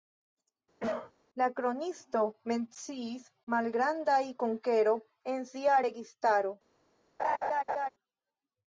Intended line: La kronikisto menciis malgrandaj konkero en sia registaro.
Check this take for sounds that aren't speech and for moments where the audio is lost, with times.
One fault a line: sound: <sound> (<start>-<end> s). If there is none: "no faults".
sound: cough (0.8-1.1 s)
sound: laugh (7.2-7.9 s)